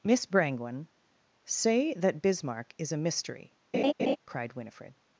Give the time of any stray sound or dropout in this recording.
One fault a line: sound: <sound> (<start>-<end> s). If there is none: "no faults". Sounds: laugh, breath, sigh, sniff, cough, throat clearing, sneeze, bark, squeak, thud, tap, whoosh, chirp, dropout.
sound: laugh (3.7-4.2 s)